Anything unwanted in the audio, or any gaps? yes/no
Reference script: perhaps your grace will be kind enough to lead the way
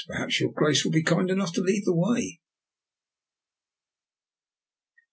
no